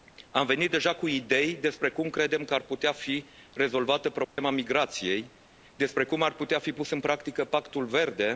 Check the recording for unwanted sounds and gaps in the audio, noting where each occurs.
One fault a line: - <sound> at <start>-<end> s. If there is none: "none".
- dropout at 4.2-4.4 s